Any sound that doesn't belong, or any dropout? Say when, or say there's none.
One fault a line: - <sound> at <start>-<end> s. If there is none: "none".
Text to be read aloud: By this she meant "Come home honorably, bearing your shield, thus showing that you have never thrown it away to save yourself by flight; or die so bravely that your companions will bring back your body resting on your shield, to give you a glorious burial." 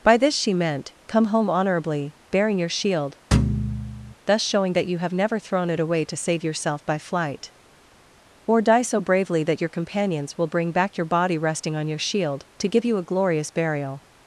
- thud at 3.3-4.1 s